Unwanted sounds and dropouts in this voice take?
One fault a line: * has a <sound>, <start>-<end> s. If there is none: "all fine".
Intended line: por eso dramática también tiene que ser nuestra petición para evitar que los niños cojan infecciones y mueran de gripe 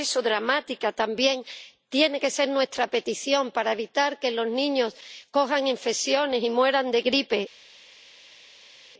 all fine